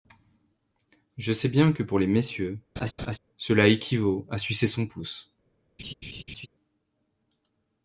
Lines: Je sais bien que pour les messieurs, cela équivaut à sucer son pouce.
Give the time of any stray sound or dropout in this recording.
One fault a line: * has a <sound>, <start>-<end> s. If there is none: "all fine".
* has a laugh, 2.8-3.2 s
* has a laugh, 5.8-6.5 s